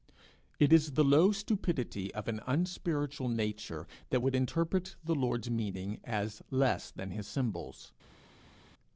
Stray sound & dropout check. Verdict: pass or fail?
pass